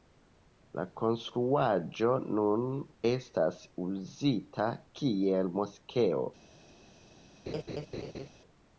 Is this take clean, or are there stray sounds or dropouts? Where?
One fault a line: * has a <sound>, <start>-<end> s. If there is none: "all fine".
* has a laugh, 7.5-8.3 s